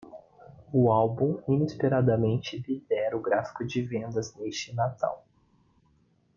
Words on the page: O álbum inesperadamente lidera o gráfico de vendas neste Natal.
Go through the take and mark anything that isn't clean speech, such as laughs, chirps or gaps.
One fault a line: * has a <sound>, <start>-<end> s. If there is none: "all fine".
all fine